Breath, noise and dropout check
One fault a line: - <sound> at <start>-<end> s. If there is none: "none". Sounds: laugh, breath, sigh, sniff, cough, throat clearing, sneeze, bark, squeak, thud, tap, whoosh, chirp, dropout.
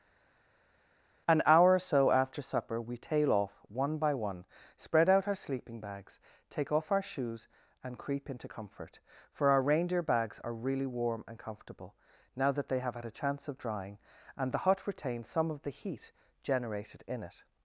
none